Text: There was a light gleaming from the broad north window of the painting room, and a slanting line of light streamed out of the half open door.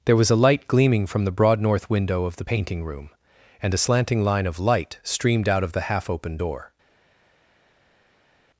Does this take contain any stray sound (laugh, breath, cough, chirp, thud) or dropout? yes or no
no